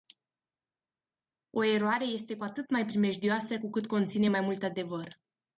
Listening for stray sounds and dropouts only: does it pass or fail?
pass